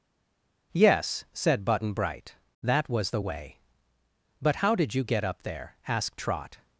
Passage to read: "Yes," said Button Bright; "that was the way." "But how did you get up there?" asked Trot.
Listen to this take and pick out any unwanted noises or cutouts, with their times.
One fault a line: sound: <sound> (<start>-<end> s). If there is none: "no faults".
no faults